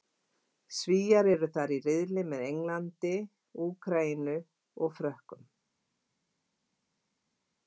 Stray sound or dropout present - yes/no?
no